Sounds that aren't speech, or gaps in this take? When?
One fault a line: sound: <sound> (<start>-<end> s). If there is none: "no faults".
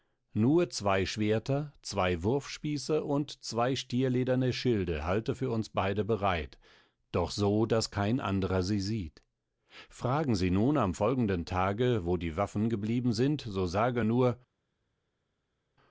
no faults